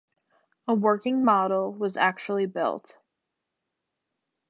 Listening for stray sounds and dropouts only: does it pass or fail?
pass